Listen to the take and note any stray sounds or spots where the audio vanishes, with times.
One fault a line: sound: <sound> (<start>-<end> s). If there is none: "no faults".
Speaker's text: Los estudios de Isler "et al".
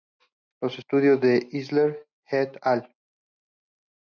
no faults